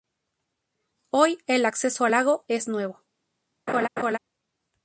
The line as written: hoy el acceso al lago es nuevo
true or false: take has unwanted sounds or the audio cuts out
true